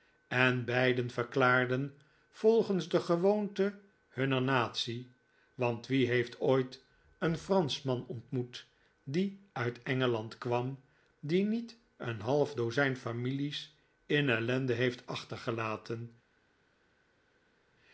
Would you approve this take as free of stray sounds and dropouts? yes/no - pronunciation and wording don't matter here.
yes